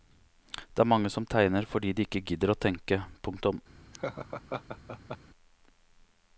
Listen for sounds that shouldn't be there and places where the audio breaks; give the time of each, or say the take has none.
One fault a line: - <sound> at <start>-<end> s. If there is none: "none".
- laugh at 3.9-5.2 s